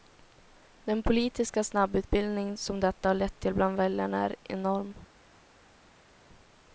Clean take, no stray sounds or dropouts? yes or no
yes